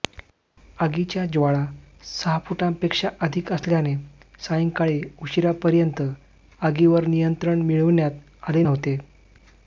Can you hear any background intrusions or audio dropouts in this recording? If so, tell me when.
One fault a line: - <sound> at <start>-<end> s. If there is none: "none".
none